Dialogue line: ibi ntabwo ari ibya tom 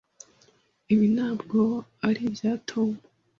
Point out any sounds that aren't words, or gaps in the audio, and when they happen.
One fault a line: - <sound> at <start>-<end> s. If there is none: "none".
none